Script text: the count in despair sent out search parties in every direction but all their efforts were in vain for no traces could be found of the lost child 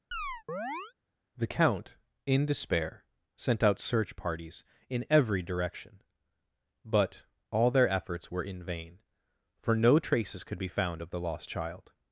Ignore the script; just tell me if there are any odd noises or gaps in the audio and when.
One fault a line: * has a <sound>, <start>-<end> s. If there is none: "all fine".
* has a chirp, 0.1-0.9 s